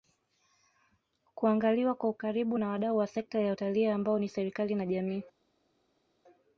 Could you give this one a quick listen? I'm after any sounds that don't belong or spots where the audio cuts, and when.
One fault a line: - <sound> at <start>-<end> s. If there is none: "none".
none